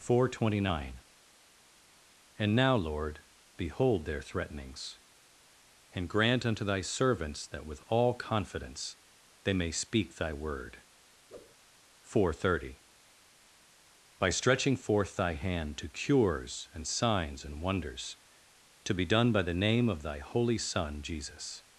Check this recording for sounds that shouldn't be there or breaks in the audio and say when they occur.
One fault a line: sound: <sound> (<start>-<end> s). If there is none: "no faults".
sound: whoosh (11.3-11.6 s)